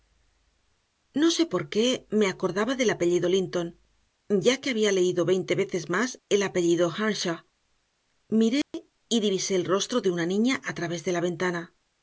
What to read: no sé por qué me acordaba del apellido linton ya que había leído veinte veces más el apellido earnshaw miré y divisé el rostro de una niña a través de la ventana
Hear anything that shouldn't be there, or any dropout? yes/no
yes